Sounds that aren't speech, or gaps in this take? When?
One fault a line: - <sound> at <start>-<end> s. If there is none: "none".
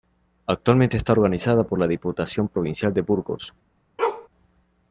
- bark at 4.0-4.3 s